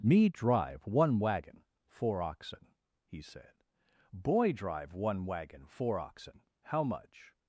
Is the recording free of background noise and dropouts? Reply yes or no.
yes